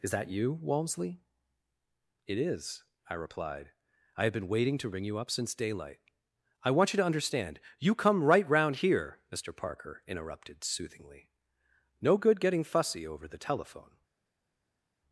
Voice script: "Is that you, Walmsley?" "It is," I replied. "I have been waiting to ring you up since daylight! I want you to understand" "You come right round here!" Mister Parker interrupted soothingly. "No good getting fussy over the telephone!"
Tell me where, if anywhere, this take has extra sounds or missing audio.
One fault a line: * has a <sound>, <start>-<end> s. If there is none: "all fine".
all fine